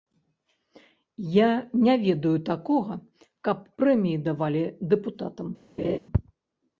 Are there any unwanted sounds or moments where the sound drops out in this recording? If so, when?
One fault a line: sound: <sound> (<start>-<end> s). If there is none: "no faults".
sound: laugh (5.8-6.0 s)